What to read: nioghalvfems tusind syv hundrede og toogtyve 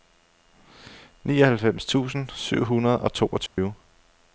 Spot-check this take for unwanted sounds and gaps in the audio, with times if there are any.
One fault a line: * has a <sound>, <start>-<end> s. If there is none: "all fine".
* has a dropout, 3.5-3.6 s